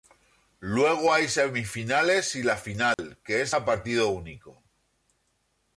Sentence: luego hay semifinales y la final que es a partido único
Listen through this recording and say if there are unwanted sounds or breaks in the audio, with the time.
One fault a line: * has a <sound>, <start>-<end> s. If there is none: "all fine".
* has a dropout, 2.9-3.0 s